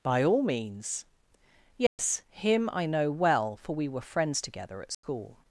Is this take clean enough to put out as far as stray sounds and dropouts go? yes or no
no